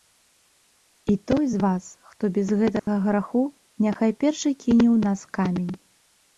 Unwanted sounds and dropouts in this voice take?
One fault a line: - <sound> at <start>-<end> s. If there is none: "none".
- dropout at 2.8-2.9 s